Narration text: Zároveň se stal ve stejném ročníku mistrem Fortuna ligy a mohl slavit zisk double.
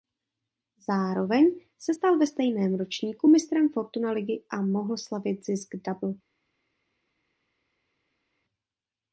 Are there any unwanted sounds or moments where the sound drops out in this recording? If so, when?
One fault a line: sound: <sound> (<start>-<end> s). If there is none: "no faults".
no faults